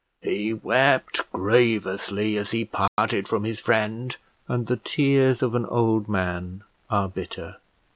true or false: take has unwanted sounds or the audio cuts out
true